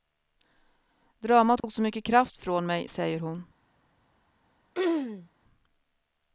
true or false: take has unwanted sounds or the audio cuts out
true